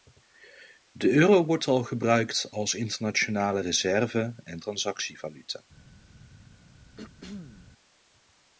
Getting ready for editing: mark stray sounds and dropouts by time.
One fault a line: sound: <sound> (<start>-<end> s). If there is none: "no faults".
sound: throat clearing (7.0-7.7 s)